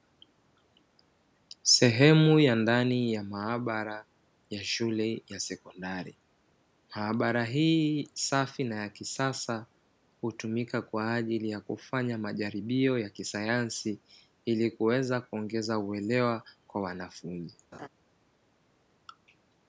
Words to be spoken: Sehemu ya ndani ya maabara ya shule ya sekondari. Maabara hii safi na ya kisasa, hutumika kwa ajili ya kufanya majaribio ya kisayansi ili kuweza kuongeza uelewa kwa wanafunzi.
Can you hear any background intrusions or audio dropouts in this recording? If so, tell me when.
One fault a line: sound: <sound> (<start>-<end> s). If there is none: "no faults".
sound: laugh (17.7-17.9 s)